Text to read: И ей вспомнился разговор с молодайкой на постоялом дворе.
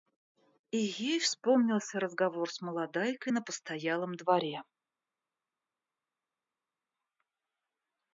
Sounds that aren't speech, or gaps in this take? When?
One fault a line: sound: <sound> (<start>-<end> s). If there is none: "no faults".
no faults